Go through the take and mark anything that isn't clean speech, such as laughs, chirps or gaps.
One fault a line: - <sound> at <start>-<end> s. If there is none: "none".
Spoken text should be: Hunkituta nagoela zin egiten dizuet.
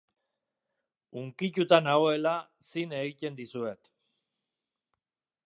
none